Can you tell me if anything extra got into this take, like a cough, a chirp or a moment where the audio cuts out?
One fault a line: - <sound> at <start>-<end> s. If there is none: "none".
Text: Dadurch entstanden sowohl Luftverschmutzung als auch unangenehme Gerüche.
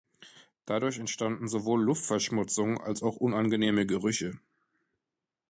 none